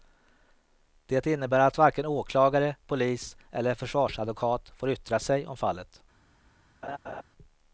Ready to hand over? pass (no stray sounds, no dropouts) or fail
fail